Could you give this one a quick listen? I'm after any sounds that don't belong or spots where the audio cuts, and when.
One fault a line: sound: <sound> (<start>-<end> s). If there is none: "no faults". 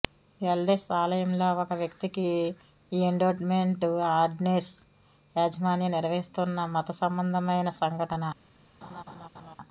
sound: laugh (8.8-9.6 s)